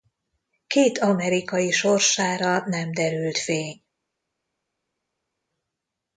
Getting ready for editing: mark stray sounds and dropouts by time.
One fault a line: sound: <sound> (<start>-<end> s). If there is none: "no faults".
no faults